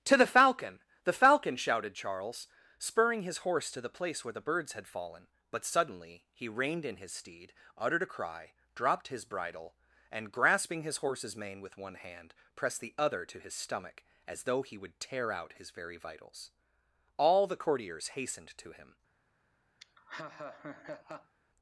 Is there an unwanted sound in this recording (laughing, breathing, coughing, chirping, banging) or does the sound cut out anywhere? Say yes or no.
yes